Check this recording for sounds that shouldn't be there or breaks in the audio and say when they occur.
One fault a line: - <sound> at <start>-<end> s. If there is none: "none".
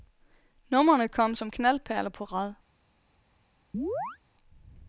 - chirp at 3.7-4.2 s